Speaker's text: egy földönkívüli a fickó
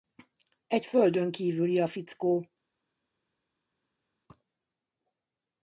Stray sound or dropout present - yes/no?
no